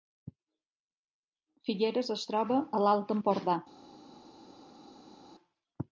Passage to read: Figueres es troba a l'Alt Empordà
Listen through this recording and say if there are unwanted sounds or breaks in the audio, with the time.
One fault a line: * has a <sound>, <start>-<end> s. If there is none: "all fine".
all fine